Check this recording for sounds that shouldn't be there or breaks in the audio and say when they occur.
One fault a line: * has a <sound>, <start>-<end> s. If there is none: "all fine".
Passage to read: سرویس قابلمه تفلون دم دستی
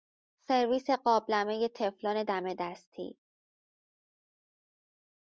all fine